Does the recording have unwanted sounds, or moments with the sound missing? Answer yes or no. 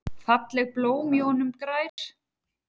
yes